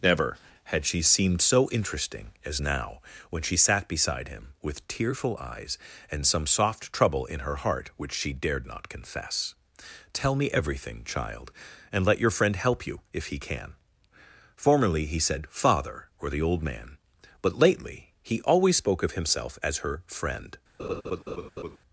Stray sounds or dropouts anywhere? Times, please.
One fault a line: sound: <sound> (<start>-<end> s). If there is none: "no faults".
sound: laugh (20.8-21.8 s)